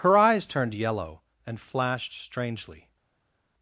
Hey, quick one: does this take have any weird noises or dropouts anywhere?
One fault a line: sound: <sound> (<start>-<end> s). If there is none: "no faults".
no faults